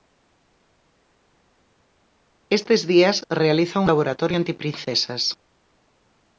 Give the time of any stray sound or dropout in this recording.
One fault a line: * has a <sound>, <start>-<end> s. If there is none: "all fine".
all fine